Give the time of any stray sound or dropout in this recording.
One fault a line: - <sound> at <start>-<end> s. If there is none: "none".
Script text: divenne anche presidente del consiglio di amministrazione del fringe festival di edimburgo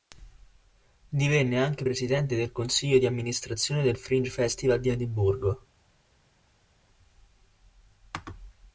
none